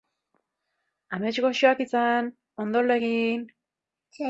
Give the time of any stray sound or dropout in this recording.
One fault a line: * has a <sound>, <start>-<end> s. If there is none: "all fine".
all fine